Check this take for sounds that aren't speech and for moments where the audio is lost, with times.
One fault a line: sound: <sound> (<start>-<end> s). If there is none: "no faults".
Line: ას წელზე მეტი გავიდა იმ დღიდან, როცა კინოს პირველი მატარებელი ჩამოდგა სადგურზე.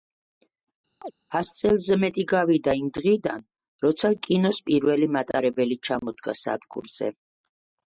sound: chirp (1.0-1.1 s)